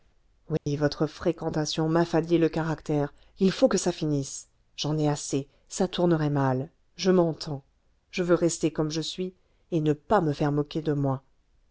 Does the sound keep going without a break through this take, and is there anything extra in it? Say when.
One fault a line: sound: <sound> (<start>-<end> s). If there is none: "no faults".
sound: dropout (0.6-0.7 s)